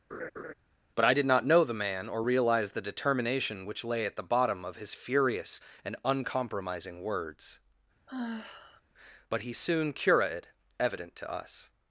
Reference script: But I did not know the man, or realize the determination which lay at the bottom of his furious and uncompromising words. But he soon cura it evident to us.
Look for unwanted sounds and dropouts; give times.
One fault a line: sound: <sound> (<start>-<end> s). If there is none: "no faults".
sound: laugh (0.1-0.5 s)
sound: sigh (8.1-8.8 s)